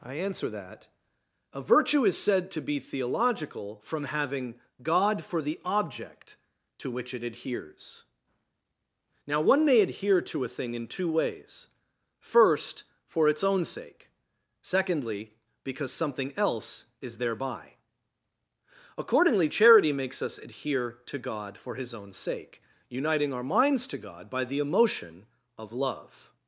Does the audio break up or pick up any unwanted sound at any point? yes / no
no